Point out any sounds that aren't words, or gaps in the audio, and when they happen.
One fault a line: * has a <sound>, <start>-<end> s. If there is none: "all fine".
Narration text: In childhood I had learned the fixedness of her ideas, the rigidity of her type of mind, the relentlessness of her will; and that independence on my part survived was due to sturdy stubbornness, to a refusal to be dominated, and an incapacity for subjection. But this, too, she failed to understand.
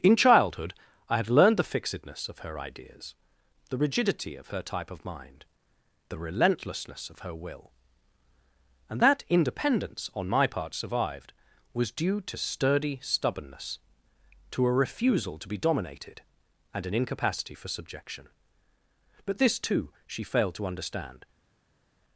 all fine